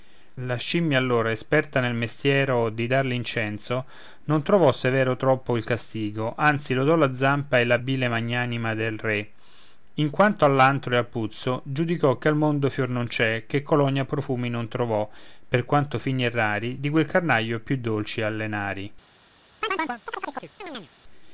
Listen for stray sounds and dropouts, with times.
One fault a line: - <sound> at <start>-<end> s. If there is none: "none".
- chirp at 19.6-20.9 s